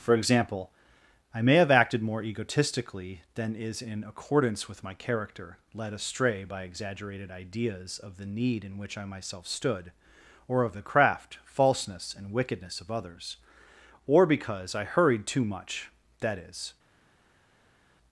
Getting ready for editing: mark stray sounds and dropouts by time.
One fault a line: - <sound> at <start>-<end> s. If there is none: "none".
none